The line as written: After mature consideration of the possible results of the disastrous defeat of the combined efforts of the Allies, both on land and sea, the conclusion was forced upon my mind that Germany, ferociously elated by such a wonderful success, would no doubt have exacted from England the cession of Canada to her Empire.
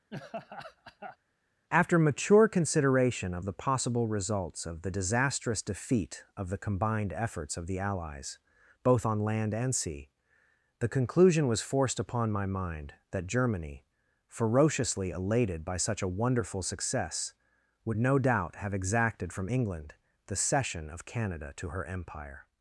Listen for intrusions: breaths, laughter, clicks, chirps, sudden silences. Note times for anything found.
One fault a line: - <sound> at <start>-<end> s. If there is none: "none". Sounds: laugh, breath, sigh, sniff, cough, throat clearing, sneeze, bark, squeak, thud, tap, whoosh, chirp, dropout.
- laugh at 0.1-1.2 s